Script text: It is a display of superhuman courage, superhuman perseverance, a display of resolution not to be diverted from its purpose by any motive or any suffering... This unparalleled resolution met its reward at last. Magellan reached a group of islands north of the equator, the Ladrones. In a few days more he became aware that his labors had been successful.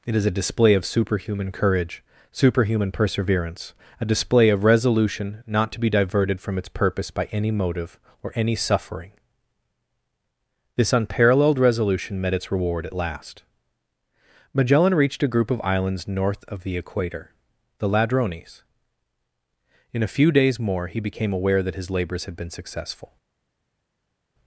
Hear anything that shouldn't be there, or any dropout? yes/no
no